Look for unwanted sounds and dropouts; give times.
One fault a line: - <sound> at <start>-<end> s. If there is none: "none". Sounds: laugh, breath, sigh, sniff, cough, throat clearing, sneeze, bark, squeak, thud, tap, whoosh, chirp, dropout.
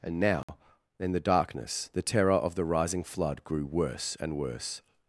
- dropout at 0.4-0.5 s